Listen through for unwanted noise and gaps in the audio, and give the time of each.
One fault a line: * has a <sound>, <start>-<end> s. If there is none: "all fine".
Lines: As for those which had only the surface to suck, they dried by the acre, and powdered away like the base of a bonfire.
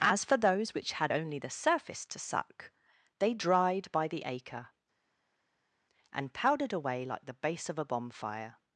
all fine